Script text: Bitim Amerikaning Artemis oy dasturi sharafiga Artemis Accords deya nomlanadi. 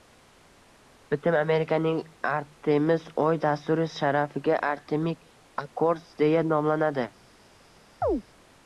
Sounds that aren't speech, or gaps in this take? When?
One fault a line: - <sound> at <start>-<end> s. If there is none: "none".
- chirp at 8.0-8.2 s